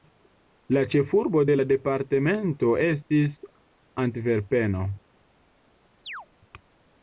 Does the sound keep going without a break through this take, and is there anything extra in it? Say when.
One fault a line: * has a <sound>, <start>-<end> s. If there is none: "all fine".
* has a chirp, 6.1-6.3 s